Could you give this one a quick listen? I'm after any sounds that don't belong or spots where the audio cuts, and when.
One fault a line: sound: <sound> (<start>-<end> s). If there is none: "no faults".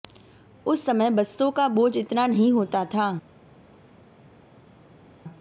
no faults